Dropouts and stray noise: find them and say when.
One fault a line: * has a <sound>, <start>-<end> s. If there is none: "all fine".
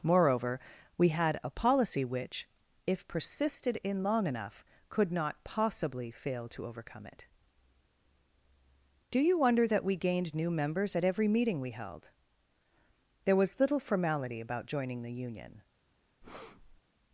* has a breath, 16.2-16.8 s